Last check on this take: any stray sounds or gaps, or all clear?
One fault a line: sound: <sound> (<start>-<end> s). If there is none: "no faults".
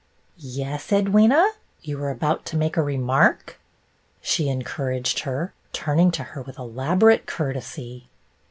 no faults